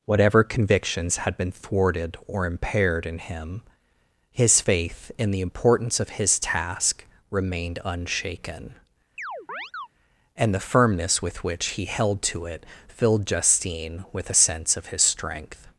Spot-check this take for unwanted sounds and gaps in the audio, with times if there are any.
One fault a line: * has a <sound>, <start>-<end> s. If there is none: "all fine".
* has a chirp, 9.2-9.9 s